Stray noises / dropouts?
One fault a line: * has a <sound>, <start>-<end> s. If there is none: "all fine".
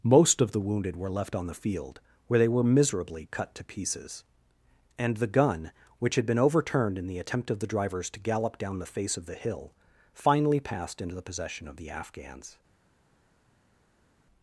all fine